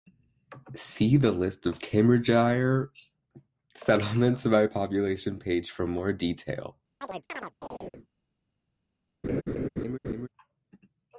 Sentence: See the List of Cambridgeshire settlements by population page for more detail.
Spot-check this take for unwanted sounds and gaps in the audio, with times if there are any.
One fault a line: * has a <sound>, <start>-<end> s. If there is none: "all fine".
* has a chirp, 7.0-8.1 s
* has a laugh, 9.2-10.3 s